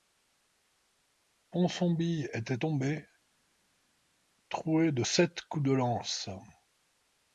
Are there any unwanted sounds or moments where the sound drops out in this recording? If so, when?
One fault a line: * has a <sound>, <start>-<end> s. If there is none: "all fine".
all fine